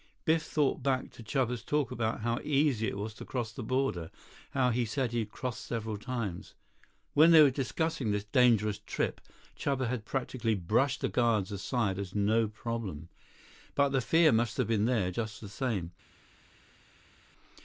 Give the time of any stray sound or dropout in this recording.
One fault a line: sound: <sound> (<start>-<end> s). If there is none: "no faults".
no faults